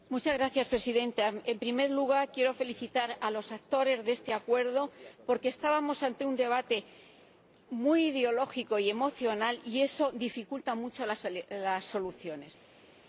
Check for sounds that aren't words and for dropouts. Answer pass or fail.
pass